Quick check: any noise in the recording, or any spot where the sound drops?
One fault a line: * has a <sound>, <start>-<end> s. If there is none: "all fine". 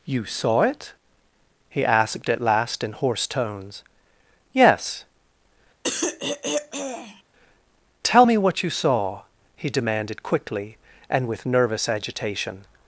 * has a throat clearing, 5.8-7.2 s